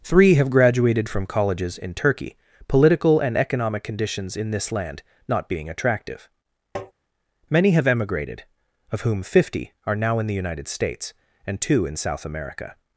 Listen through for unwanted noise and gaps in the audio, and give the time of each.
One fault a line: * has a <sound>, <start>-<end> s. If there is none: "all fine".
* has a tap, 6.8-6.9 s